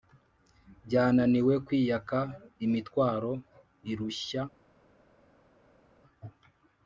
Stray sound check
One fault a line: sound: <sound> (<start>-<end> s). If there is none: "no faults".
no faults